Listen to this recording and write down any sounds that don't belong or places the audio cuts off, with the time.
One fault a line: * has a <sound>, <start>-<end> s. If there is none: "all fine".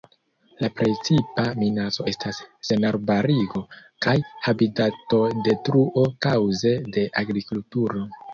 all fine